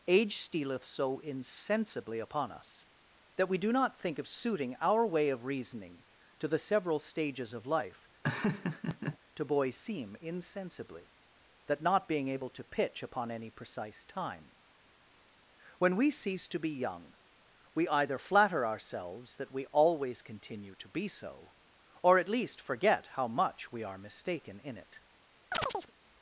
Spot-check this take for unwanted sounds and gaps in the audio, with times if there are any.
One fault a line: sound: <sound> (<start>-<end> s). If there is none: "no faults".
sound: laugh (8.2-9.2 s)
sound: chirp (25.5-25.9 s)